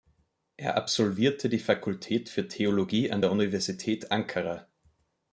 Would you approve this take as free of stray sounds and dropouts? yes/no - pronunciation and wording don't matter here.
yes